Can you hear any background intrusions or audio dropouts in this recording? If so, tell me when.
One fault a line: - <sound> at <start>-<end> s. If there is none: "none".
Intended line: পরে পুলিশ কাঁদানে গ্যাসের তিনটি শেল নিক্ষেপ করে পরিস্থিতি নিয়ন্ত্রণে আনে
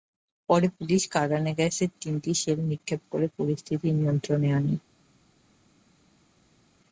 none